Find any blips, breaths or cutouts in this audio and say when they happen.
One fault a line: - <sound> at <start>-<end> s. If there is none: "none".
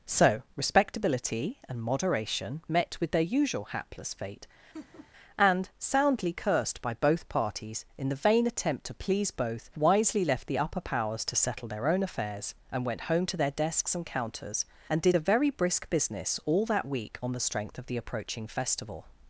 - laugh at 4.7-5.1 s